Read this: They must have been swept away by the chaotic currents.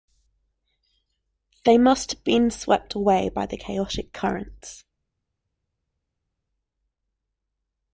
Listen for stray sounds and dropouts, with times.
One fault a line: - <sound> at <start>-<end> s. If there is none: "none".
none